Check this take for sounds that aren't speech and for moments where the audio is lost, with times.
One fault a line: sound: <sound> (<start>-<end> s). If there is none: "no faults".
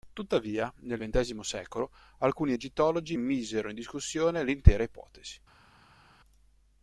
no faults